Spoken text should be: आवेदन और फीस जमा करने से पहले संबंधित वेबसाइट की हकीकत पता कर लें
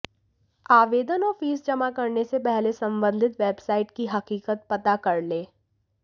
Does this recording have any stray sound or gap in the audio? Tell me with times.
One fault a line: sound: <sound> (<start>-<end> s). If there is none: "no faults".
no faults